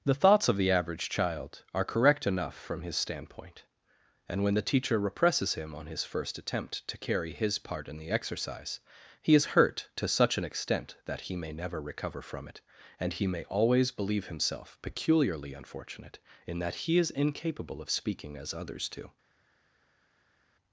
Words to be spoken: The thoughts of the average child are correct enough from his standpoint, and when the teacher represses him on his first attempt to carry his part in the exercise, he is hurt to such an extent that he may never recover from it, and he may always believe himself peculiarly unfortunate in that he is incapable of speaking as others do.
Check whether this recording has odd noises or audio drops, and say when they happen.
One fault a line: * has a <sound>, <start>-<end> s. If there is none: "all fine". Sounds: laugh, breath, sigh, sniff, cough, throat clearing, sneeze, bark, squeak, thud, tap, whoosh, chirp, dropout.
all fine